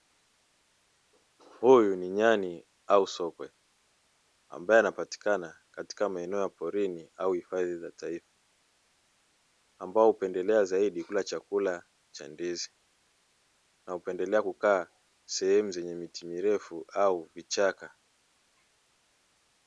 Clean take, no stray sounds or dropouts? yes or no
yes